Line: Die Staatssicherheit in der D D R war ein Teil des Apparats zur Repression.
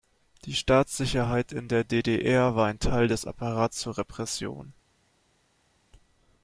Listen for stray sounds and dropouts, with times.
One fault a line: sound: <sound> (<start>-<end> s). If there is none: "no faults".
no faults